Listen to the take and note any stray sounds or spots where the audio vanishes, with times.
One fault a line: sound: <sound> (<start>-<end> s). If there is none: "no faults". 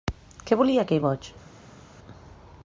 no faults